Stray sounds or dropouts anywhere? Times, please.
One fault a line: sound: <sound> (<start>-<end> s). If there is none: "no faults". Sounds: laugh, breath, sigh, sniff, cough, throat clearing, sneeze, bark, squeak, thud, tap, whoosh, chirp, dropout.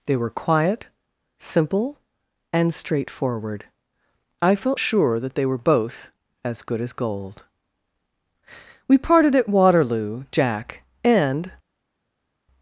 no faults